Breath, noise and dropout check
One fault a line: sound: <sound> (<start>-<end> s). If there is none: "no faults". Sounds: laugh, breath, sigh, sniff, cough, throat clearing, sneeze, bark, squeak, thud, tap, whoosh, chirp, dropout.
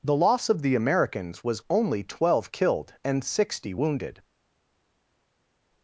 no faults